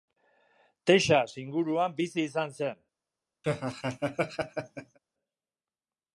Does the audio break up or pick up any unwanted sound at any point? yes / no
yes